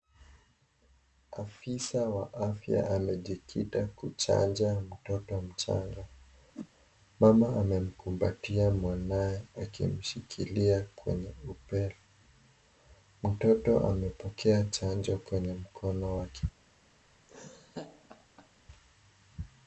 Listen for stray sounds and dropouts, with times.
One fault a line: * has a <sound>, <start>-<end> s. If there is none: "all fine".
* has a whoosh, 6.5-6.7 s
* has a laugh, 17.3-18.5 s